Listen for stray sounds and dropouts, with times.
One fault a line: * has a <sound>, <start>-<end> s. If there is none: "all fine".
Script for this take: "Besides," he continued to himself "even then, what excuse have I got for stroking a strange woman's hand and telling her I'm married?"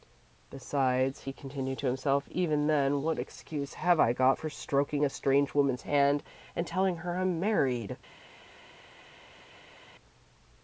all fine